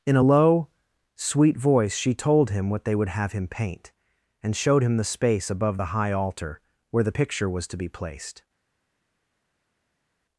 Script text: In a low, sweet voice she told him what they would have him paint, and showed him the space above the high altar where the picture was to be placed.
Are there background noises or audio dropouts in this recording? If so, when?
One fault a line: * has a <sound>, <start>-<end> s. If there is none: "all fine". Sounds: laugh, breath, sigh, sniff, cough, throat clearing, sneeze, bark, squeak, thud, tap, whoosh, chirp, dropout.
all fine